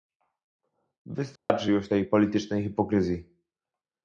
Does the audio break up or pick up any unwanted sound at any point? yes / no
yes